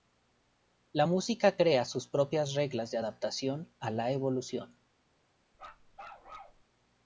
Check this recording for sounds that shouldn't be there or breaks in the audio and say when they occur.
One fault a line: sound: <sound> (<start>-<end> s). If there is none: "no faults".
sound: bark (5.5-6.6 s)